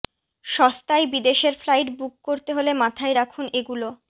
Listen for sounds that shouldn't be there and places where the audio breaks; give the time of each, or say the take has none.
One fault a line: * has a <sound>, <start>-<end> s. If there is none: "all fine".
all fine